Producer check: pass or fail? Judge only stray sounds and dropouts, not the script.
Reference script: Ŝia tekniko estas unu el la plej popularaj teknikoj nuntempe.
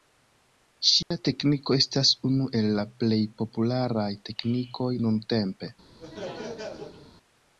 fail